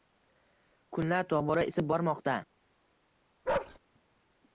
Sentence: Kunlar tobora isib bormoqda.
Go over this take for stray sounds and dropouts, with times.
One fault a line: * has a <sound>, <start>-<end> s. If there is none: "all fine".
* has a bark, 3.4-3.8 s